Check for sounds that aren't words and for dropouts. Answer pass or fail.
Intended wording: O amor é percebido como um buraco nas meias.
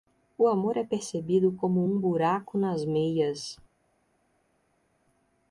pass